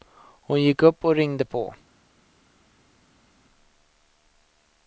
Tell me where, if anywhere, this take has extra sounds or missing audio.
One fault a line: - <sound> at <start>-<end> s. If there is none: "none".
none